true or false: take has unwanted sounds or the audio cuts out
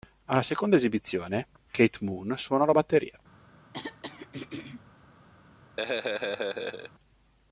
true